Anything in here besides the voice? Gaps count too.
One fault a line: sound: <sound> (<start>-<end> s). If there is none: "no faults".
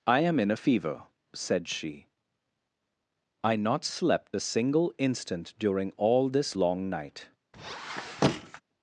sound: squeak (7.5-8.6 s)